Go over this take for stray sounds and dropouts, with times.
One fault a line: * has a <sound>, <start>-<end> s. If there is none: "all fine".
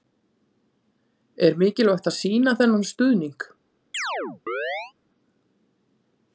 * has a chirp, 3.9-4.9 s